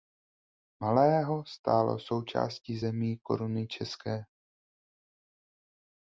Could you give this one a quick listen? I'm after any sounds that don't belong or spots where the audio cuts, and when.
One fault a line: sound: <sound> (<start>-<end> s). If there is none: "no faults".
no faults